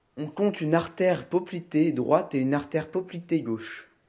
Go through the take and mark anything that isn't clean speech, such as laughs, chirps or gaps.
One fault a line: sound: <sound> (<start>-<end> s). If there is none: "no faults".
no faults